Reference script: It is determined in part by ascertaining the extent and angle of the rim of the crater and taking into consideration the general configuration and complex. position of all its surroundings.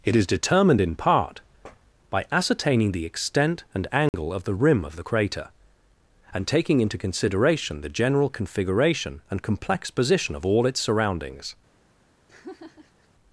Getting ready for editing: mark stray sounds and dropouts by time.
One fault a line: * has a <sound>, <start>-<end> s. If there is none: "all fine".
* has a dropout, 4.1-4.1 s
* has a laugh, 12.3-13.1 s